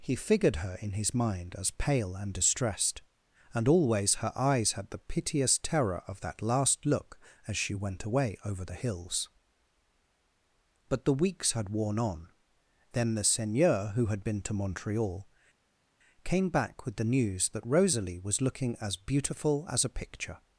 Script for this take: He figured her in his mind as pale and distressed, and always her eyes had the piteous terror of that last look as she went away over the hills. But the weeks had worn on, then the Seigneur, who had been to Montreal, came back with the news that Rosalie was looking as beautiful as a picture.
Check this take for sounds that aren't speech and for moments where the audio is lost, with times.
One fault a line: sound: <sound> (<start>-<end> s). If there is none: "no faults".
no faults